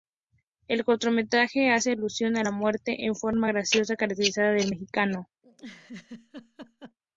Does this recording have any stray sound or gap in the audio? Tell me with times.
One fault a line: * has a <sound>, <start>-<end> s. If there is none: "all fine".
* has a laugh, 5.4-7.0 s